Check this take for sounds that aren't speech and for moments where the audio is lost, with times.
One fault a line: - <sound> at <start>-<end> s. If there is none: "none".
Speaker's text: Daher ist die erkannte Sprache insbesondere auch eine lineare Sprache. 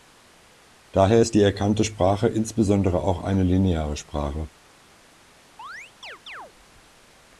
- chirp at 5.6-6.5 s